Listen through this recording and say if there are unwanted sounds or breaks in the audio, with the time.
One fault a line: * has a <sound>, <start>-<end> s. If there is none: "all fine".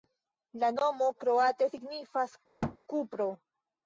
* has a thud, 2.6-2.8 s